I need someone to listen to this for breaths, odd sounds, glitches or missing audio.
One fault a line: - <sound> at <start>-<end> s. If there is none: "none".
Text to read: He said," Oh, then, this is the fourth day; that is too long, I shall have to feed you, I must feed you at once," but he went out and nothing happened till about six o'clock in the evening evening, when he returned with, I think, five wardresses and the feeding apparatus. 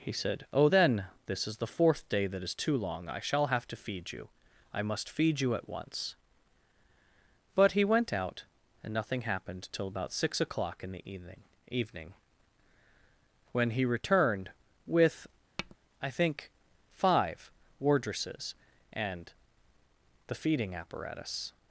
- tap at 15.6-15.8 s